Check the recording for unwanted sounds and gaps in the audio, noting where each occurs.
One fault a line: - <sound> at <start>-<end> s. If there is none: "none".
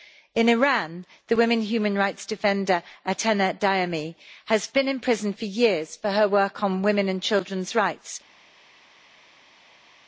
none